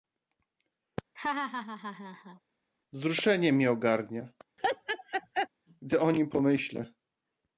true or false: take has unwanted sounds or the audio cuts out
true